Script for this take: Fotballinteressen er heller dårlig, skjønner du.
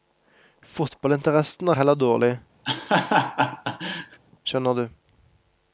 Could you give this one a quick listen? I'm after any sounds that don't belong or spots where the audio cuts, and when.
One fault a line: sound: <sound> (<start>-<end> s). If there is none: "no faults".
sound: laugh (2.7-4.2 s)